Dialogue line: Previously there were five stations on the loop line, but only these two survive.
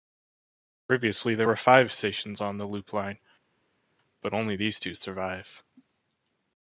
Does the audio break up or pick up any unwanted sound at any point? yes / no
no